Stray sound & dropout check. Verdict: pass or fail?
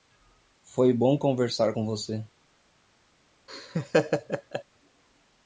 fail